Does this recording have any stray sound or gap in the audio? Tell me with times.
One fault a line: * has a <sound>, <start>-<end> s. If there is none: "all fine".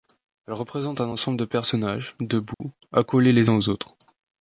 * has a dropout, 2.5-2.6 s